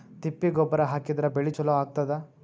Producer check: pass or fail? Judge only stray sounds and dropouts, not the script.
pass